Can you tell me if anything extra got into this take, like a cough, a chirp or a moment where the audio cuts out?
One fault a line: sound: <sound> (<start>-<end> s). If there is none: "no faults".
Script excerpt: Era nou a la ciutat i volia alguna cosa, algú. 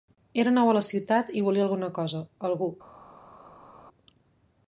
no faults